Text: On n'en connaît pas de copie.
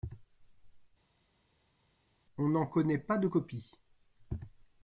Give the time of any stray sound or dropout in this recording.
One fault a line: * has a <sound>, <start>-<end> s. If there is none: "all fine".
all fine